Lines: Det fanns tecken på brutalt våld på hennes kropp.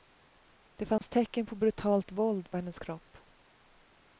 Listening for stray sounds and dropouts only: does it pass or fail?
fail